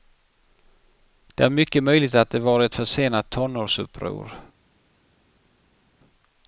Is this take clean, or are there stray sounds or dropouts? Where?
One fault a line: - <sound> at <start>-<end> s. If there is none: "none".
none